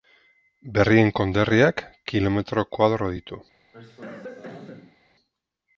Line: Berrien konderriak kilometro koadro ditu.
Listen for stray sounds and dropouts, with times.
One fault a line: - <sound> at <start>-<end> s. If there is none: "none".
- cough at 3.7-5.0 s